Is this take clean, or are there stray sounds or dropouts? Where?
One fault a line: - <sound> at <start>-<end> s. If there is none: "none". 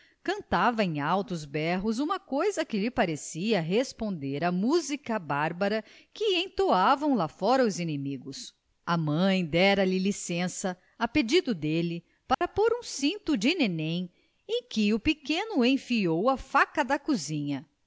- dropout at 12.3-12.4 s